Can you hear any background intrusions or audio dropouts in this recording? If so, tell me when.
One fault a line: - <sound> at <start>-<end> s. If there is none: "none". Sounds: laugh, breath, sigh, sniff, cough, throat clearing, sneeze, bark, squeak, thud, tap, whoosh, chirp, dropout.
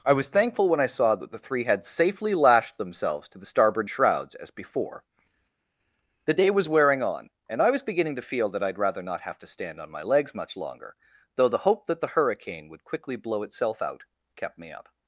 none